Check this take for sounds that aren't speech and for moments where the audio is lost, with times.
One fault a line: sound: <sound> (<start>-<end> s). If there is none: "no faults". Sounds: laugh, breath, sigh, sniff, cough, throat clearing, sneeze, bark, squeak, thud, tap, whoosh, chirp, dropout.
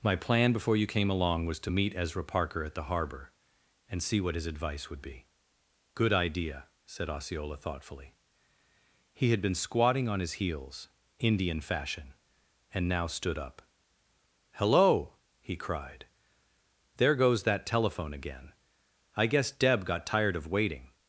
no faults